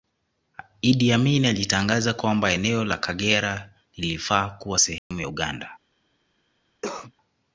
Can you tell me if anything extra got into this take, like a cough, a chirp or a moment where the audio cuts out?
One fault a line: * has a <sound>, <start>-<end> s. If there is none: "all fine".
* has a dropout, 5.0-5.1 s
* has a cough, 6.8-7.1 s